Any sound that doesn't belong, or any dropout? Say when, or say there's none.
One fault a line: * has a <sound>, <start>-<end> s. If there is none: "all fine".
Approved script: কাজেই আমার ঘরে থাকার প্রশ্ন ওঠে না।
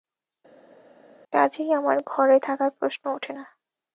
all fine